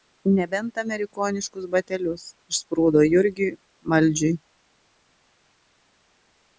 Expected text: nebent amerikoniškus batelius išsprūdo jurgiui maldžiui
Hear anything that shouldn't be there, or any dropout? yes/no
no